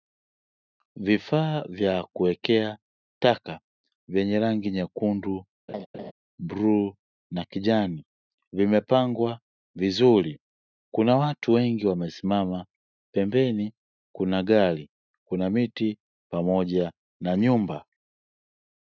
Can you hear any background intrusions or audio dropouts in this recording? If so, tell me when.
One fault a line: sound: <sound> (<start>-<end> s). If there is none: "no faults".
sound: laugh (5.7-6.1 s)